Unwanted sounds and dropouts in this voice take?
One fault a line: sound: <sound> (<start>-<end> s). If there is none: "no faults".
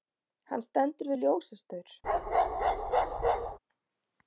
sound: bark (2.0-3.6 s)